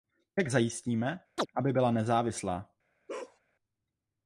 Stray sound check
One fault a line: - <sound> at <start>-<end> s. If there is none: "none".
- chirp at 1.4-1.5 s
- bark at 3.1-3.4 s